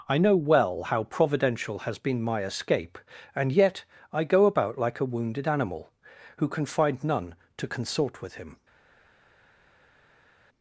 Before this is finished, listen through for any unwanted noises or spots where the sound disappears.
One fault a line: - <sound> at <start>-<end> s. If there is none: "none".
none